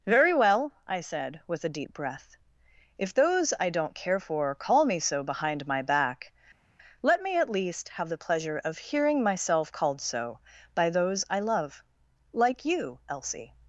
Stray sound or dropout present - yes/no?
no